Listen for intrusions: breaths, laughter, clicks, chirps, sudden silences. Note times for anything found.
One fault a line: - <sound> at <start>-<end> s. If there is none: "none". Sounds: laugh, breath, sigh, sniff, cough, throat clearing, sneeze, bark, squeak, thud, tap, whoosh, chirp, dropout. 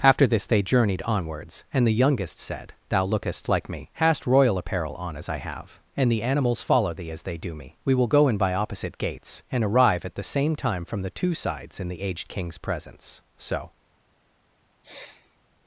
- sniff at 14.8-15.4 s